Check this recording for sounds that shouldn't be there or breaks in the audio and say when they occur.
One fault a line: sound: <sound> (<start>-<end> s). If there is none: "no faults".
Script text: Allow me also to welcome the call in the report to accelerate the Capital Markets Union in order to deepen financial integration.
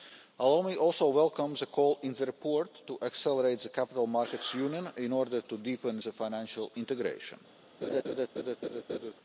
sound: laugh (7.8-9.1 s)